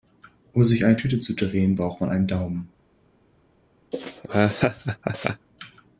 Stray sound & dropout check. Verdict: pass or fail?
fail